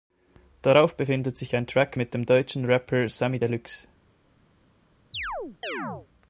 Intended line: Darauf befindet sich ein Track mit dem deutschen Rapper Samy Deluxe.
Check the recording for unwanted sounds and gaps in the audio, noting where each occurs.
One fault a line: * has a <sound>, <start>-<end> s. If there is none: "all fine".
* has a chirp, 5.1-6.1 s